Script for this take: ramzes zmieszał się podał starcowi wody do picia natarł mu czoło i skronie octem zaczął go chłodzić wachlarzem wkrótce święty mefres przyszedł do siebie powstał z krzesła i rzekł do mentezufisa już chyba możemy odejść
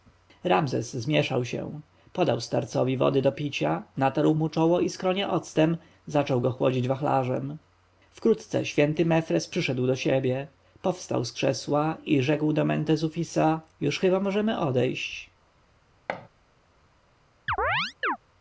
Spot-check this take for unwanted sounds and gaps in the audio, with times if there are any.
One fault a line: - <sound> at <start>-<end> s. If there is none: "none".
- thud at 16.1-16.3 s
- chirp at 17.5-18.2 s